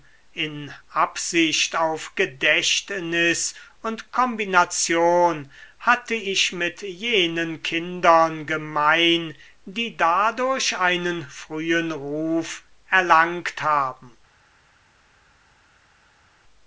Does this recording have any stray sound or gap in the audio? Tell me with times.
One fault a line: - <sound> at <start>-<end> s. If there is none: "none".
none